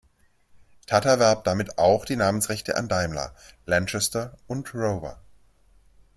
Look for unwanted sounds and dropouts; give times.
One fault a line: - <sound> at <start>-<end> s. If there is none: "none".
none